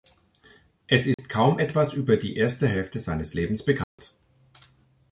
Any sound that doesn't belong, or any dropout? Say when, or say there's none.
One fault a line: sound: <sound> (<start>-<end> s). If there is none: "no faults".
sound: dropout (1.1-1.2 s)
sound: dropout (3.8-4.0 s)